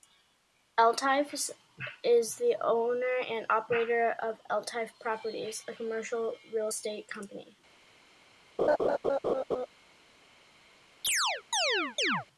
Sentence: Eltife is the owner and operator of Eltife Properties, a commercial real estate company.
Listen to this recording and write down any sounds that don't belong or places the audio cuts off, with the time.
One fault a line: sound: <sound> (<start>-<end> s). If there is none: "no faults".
sound: laugh (8.6-9.7 s)
sound: chirp (11.0-12.3 s)